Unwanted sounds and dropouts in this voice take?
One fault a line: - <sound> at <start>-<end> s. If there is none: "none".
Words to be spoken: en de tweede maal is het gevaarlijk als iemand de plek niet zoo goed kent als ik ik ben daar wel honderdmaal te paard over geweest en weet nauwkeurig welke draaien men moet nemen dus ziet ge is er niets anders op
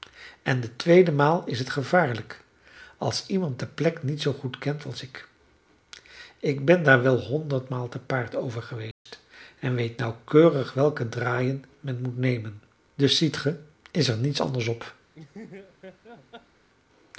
- dropout at 8.9-9.1 s
- laugh at 15.1-16.7 s